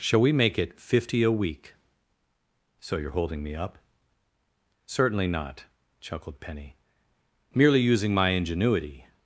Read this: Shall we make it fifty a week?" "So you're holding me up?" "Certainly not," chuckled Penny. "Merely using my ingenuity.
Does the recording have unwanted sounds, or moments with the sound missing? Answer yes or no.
no